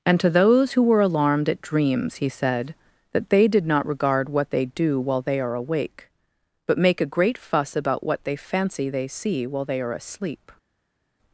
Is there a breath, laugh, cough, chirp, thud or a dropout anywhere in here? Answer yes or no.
no